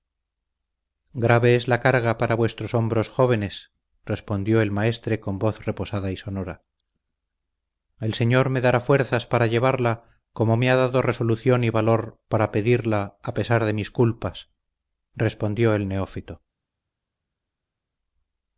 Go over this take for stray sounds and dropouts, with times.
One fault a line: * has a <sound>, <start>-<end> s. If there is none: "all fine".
all fine